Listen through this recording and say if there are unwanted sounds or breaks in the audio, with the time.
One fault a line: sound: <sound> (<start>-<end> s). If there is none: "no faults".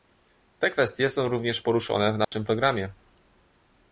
sound: dropout (2.2-2.3 s)